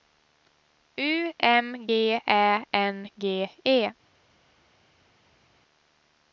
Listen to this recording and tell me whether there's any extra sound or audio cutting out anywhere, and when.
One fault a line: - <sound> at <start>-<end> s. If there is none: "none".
none